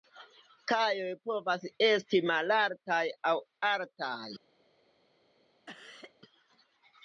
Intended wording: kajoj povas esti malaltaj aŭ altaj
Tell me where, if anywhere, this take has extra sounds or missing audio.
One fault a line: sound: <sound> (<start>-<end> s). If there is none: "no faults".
sound: cough (5.7-6.1 s)